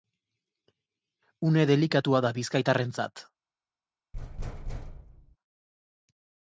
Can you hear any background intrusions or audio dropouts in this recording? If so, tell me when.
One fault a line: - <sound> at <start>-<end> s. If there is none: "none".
- thud at 4.1-5.4 s